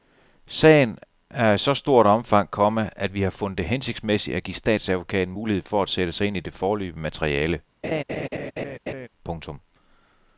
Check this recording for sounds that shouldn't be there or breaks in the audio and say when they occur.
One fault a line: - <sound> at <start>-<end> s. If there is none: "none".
- laugh at 7.8-9.1 s